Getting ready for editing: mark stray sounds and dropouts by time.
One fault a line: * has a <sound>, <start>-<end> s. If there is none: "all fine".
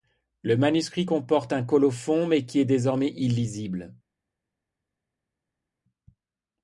all fine